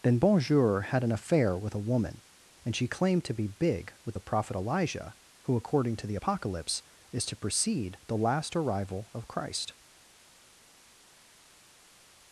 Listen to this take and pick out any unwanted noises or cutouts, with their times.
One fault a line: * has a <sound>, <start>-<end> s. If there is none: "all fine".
all fine